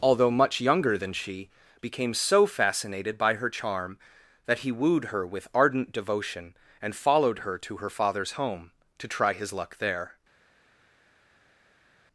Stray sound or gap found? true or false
false